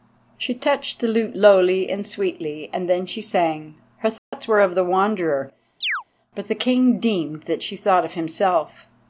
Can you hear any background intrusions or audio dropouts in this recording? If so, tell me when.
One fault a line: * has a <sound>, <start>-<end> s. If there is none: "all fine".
* has a dropout, 4.2-4.3 s
* has a chirp, 5.8-6.0 s